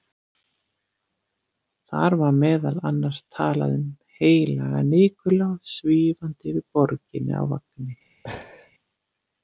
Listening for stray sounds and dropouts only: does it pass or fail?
fail